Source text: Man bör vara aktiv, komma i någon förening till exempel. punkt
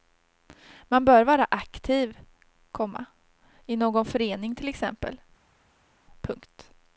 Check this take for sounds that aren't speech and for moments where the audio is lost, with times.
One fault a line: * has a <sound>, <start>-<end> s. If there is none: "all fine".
all fine